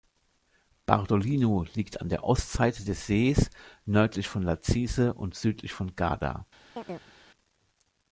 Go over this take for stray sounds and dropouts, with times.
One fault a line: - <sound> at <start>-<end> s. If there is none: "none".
- chirp at 6.8-7.1 s